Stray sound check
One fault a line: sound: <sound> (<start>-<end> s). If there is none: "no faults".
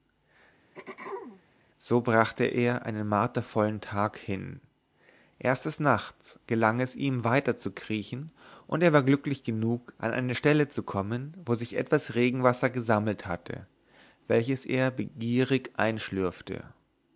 sound: throat clearing (0.7-1.4 s)